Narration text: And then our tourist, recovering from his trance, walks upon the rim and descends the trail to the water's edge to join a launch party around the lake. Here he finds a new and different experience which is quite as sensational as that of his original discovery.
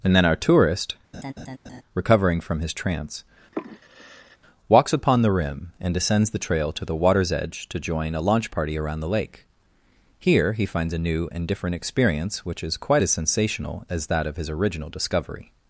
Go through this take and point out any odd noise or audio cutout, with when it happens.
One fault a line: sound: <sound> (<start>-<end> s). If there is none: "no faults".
sound: laugh (1.1-1.8 s)
sound: sigh (3.5-4.4 s)